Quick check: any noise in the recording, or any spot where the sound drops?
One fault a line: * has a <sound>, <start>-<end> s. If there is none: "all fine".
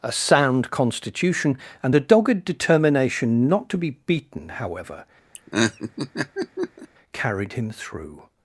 * has a laugh, 5.3-6.9 s